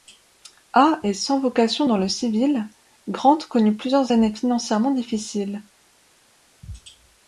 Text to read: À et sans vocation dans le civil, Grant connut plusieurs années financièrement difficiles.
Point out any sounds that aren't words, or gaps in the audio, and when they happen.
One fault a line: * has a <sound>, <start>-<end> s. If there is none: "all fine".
all fine